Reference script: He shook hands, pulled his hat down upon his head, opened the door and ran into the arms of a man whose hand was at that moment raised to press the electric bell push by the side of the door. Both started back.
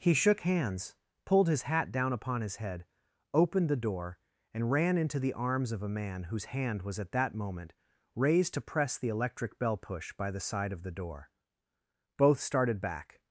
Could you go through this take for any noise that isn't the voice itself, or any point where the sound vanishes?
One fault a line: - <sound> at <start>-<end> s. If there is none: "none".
none